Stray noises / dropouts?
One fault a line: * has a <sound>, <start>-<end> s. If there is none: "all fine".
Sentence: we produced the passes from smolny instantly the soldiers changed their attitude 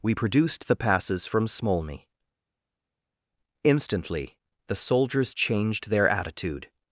all fine